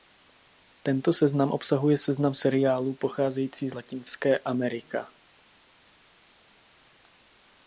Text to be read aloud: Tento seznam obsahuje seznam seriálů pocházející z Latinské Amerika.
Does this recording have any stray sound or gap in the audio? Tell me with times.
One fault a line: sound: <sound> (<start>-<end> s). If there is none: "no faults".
no faults